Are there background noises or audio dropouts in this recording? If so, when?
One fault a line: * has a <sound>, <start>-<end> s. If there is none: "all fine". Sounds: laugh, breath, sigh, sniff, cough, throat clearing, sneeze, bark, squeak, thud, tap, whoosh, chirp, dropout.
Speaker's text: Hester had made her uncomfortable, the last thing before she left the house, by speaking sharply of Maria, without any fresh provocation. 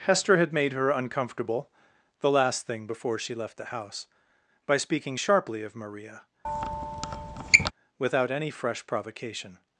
* has a squeak, 6.4-7.7 s